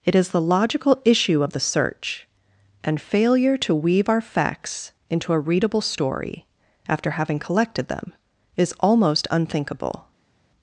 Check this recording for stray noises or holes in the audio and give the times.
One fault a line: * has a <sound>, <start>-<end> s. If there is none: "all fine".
all fine